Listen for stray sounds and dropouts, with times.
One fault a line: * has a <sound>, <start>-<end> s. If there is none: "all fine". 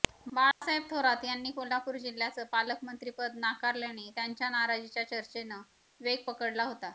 * has a dropout, 0.5-0.6 s